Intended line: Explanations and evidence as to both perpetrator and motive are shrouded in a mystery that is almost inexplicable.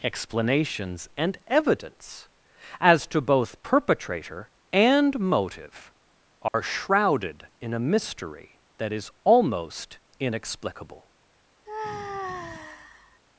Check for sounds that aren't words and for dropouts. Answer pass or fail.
fail